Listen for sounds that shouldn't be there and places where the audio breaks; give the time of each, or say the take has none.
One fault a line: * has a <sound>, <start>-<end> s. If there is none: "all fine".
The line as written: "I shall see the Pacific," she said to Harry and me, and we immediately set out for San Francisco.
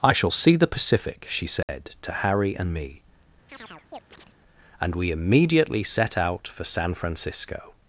* has a dropout, 1.6-1.7 s
* has a chirp, 3.5-4.4 s